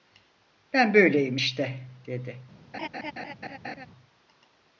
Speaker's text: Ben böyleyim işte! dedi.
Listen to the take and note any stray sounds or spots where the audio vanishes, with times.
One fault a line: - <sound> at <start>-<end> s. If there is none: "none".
- laugh at 2.7-3.9 s